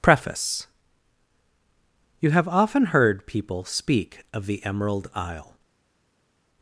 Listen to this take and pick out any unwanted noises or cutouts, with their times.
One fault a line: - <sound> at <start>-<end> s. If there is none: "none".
none